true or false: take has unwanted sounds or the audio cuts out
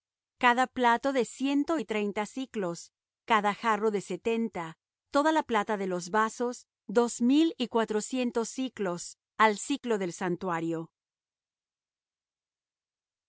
false